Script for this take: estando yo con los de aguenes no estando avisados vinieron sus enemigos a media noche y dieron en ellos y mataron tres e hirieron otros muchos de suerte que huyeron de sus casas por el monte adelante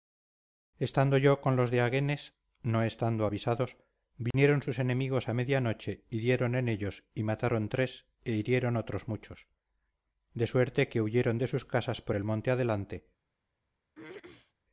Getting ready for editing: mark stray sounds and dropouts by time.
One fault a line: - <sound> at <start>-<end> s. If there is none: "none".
- dropout at 4.3-4.3 s
- throat clearing at 13.9-14.5 s